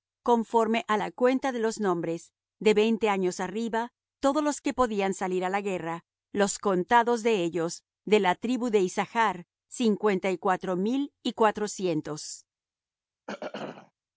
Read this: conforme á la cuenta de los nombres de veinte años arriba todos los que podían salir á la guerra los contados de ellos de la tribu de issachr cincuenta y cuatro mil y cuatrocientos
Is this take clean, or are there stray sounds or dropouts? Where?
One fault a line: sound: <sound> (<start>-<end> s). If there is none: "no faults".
sound: throat clearing (13.3-13.9 s)